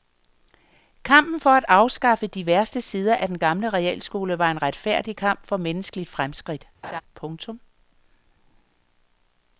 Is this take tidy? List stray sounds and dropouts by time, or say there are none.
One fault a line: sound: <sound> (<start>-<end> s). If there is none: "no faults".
sound: laugh (6.8-7.0 s)